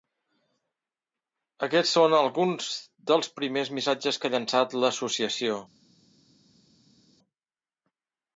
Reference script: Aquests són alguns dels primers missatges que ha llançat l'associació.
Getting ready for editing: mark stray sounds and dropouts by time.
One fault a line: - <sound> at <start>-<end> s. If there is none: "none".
none